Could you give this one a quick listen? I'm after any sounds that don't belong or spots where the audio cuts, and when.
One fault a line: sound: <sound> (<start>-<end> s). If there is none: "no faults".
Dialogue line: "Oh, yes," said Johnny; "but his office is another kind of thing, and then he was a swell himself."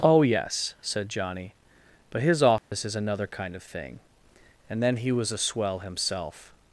sound: dropout (2.6-2.7 s)